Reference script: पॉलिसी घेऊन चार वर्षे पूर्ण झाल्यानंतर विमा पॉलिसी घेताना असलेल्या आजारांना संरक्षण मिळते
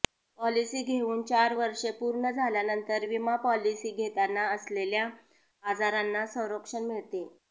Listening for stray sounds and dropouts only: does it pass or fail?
pass